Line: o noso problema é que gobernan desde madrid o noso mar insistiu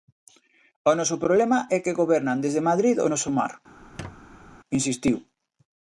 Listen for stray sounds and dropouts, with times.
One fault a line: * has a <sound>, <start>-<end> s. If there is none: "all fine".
* has a squeak, 3.8-4.6 s